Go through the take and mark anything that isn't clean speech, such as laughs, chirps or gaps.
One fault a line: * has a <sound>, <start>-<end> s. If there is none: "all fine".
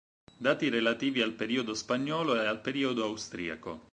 all fine